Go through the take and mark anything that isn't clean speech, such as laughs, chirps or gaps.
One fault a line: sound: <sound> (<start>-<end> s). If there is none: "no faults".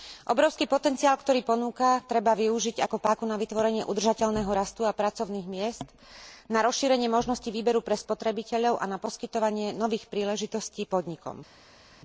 no faults